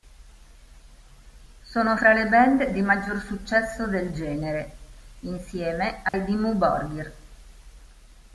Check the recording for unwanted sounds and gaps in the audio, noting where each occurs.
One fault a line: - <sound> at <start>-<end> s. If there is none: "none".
- dropout at 6.1-6.1 s